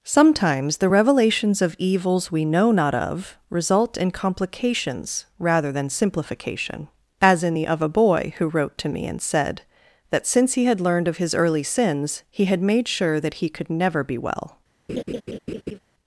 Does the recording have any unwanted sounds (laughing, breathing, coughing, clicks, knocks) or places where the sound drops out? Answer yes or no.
yes